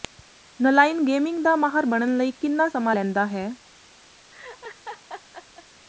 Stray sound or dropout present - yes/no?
yes